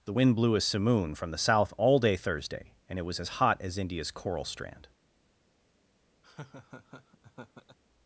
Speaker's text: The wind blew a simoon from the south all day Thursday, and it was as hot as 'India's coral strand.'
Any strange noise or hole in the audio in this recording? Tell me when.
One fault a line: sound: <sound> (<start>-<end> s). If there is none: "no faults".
sound: laugh (6.2-7.8 s)